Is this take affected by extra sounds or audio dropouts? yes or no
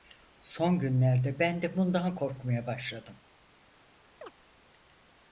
yes